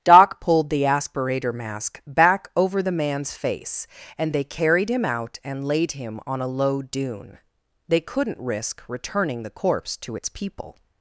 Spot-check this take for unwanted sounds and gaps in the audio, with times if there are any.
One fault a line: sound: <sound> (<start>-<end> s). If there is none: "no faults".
no faults